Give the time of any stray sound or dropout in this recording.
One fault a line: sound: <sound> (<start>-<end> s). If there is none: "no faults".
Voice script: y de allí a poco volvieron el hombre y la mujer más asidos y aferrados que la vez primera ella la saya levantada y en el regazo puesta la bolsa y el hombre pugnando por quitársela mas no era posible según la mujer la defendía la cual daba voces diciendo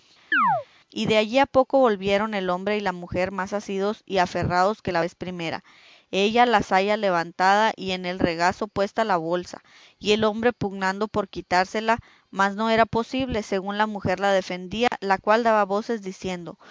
sound: chirp (0.3-0.7 s)
sound: dropout (14.9-14.9 s)